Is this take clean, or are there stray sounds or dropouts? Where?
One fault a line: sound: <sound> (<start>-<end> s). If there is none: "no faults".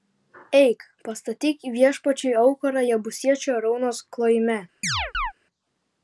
sound: chirp (4.8-5.3 s)